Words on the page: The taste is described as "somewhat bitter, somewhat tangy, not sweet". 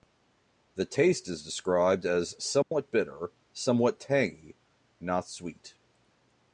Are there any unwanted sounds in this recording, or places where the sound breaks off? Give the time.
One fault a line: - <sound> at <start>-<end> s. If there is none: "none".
- dropout at 2.6-2.7 s